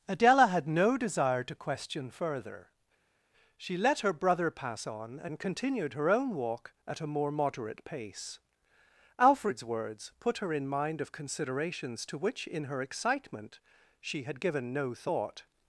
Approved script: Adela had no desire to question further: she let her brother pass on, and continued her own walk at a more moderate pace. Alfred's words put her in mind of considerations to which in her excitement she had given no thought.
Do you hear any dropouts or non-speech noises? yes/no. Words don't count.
no